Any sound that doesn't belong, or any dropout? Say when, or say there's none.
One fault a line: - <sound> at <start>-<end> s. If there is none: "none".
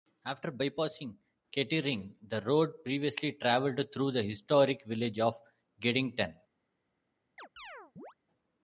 - chirp at 7.4-8.1 s